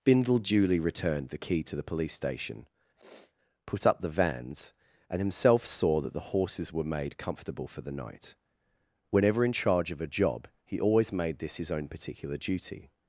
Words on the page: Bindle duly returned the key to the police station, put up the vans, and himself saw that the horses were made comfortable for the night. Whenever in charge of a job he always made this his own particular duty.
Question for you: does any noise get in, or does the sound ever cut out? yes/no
yes